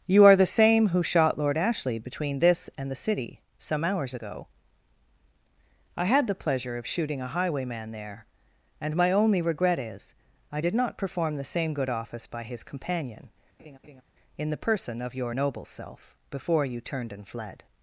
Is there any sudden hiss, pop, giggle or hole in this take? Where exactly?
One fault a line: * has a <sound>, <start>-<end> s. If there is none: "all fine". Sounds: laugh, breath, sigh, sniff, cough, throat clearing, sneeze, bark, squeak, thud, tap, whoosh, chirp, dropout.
* has a laugh, 13.6-14.0 s